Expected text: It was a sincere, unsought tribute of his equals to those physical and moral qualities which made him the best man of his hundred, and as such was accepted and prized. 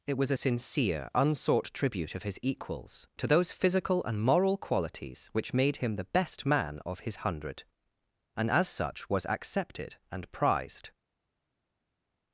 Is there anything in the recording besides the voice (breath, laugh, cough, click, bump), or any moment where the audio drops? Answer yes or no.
no